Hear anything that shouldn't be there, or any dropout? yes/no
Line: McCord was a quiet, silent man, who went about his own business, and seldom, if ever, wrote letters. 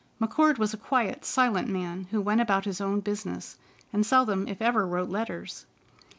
no